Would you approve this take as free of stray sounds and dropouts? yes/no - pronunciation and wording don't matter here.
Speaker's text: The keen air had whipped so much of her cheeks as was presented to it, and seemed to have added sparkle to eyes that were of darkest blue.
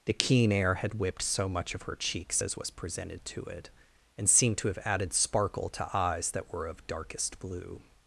yes